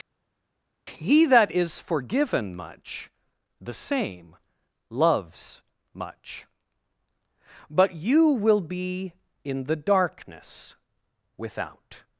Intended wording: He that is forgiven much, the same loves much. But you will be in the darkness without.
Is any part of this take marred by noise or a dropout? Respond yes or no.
no